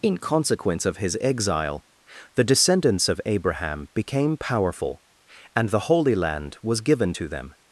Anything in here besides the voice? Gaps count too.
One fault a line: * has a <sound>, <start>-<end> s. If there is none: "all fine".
all fine